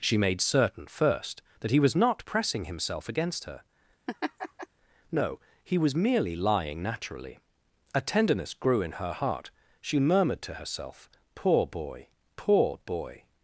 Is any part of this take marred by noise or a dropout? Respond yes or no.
yes